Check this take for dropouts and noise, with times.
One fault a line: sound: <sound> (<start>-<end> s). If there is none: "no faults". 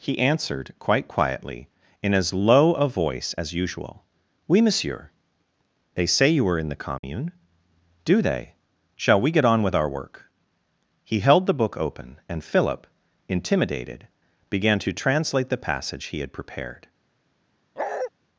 sound: dropout (7.0-7.0 s)
sound: bark (17.8-18.1 s)